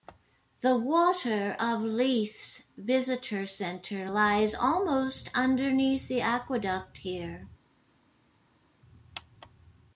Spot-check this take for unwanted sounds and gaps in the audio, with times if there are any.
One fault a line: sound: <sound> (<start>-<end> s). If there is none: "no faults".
no faults